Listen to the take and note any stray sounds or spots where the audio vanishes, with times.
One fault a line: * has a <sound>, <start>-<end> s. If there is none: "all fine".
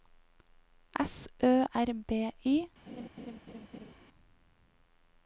* has a laugh, 2.9-3.9 s